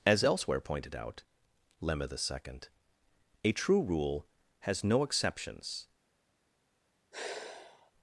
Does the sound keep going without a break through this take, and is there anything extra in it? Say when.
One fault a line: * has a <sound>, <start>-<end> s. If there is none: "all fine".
* has a sigh, 7.1-7.9 s